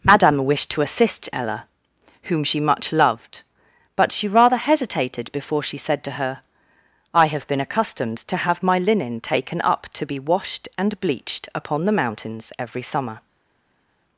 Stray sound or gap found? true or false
false